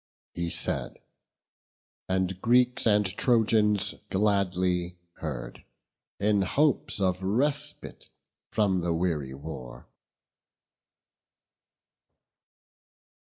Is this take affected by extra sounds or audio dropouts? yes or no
no